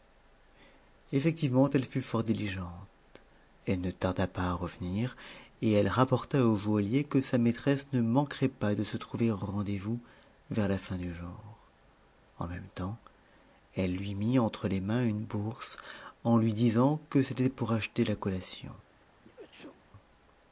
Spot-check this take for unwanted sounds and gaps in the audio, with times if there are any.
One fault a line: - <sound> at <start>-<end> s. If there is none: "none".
- sneeze at 19.2-19.8 s